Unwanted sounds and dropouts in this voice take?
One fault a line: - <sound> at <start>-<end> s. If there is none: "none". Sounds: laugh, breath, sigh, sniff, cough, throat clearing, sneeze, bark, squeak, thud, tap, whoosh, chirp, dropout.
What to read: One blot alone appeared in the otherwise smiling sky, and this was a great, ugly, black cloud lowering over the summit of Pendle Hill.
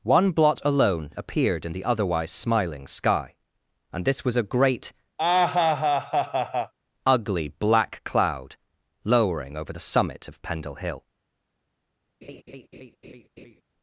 - laugh at 5.2-6.7 s
- laugh at 12.2-13.6 s